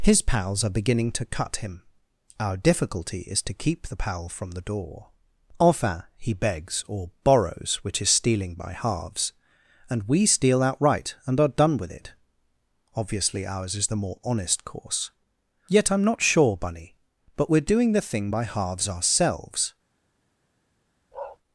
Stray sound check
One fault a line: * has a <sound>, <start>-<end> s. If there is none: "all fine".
* has a bark, 21.1-21.4 s